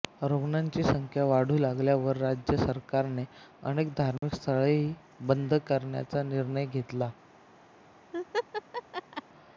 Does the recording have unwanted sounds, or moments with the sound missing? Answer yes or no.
yes